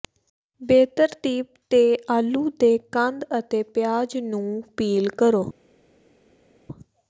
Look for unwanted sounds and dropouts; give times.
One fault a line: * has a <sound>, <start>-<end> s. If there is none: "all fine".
all fine